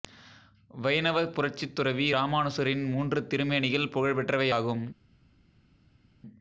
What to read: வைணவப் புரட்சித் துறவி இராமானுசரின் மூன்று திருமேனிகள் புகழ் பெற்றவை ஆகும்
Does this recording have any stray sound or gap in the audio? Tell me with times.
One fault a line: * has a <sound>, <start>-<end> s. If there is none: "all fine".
all fine